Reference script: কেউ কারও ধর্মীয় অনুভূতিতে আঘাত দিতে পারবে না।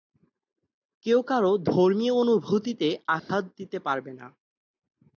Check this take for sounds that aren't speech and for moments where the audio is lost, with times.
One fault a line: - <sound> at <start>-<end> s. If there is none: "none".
- dropout at 3.2-3.3 s